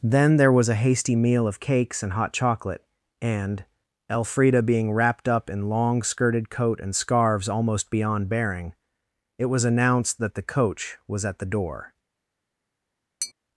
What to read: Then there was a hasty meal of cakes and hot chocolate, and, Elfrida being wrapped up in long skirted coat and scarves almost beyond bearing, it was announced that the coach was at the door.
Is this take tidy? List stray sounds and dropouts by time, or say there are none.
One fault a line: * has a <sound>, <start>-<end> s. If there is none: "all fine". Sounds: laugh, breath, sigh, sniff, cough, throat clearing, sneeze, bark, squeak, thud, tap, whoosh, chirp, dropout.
* has a tap, 13.2-13.3 s